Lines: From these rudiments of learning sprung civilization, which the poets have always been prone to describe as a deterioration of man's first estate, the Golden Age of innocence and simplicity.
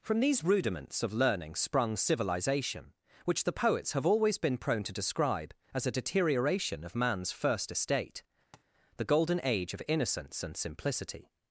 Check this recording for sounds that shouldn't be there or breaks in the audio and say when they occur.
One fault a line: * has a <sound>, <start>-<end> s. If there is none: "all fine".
* has a tap, 8.5-8.6 s